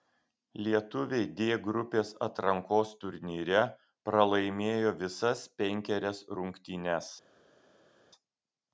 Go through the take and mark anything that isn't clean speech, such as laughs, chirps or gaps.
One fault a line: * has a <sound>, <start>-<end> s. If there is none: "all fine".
all fine